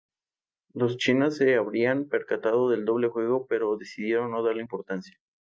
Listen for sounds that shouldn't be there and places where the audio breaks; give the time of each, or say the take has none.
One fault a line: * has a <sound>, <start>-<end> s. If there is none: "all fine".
all fine